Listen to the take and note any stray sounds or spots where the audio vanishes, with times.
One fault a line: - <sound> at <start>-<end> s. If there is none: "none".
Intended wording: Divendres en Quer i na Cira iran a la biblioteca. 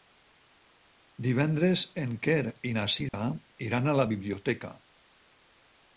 - dropout at 3.1-3.1 s